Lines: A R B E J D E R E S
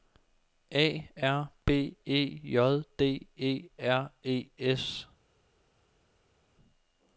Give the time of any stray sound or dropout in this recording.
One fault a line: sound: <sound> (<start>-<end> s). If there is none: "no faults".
no faults